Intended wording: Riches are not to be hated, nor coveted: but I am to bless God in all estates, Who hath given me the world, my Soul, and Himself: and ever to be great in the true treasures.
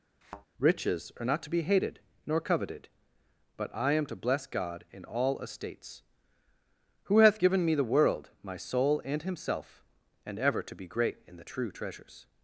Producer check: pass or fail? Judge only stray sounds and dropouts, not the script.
fail